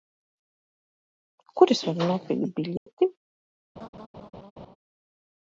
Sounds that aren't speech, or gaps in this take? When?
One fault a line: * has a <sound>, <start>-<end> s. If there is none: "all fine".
* has a dropout, 2.8-2.9 s
* has a laugh, 3.8-4.8 s